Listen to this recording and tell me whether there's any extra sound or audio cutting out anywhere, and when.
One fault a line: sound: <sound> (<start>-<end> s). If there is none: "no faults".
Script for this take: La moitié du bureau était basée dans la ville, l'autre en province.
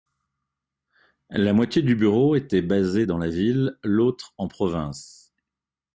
no faults